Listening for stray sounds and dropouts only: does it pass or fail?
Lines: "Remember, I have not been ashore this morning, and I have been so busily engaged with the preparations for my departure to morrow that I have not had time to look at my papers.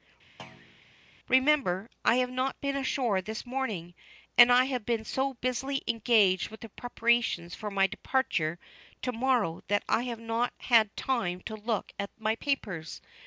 fail